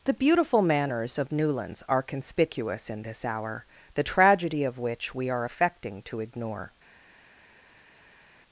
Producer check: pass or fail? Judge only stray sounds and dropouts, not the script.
pass